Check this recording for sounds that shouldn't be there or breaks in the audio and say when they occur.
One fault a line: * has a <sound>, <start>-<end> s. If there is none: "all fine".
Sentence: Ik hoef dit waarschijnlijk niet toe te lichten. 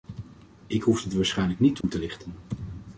* has a dropout, 1.8-1.8 s